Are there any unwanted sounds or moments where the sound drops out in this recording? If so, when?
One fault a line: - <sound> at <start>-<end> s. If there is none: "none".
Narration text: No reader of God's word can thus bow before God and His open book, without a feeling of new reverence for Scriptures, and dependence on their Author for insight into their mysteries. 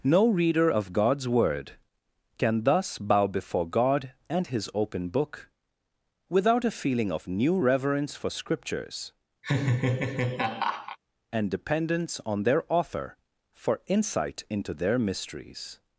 - laugh at 9.4-11.0 s